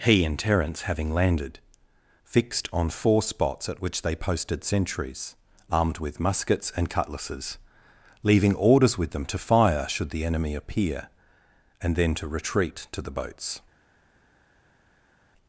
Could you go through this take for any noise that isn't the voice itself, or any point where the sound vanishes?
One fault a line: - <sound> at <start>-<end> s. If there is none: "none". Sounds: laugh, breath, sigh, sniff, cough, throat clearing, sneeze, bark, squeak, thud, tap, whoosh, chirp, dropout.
none